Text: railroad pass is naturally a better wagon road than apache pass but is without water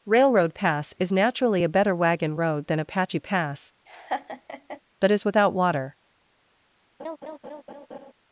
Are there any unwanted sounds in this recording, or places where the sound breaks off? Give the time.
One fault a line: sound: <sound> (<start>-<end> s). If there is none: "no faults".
sound: laugh (3.9-4.8 s)
sound: laugh (7.0-8.1 s)